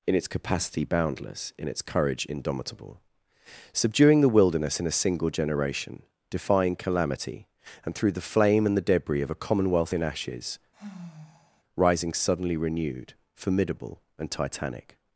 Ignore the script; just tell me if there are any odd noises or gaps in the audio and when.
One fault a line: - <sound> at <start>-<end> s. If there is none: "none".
- sigh at 10.7-11.6 s